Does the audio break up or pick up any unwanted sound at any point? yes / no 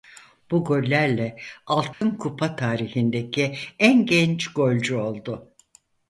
yes